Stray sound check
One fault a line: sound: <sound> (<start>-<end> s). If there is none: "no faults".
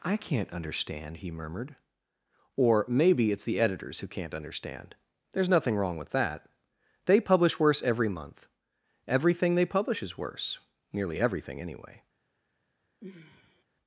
sound: sigh (13.0-13.6 s)